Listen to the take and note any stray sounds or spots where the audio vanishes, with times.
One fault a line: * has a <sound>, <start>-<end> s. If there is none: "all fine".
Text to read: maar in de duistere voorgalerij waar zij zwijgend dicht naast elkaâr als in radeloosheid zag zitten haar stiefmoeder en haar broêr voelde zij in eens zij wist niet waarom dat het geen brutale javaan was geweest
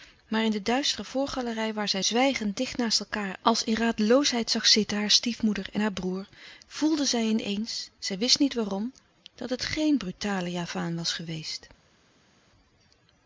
all fine